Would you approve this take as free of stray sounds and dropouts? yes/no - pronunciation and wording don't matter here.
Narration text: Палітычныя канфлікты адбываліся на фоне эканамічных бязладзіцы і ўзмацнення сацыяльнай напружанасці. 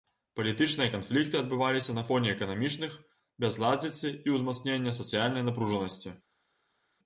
yes